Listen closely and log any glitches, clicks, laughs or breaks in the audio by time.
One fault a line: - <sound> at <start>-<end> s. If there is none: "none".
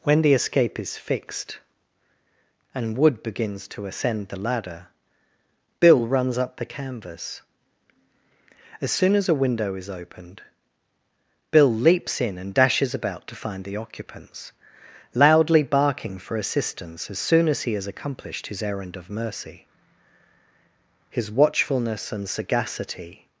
none